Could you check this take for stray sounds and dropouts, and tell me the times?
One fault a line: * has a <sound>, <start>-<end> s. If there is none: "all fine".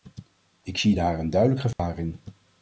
* has a dropout, 1.7-1.8 s